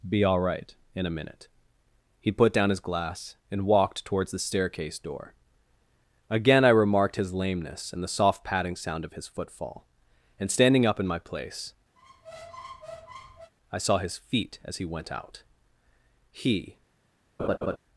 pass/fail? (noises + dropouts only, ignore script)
fail